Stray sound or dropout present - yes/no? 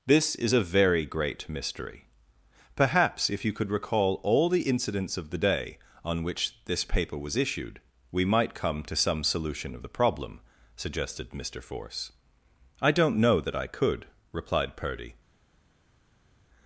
no